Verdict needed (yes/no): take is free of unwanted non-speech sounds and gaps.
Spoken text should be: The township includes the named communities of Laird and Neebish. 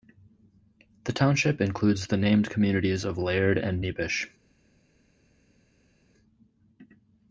yes